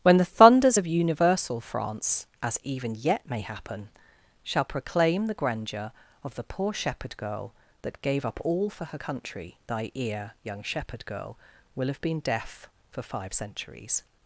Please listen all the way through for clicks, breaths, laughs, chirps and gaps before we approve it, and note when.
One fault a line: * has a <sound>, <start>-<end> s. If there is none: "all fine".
all fine